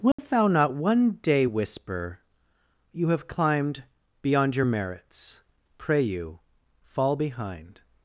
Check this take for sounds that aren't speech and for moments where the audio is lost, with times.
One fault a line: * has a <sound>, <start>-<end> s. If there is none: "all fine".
* has a dropout, 0.1-0.2 s